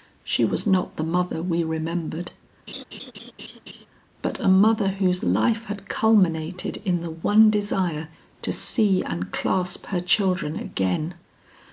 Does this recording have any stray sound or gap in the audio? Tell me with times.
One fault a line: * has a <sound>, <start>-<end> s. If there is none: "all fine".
* has a laugh, 2.7-3.9 s